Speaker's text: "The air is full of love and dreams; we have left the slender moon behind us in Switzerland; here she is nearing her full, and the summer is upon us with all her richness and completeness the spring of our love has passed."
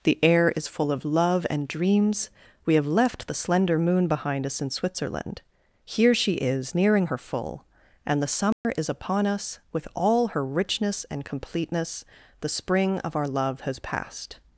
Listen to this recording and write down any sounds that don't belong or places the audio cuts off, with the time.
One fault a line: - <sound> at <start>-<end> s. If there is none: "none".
- dropout at 8.5-8.6 s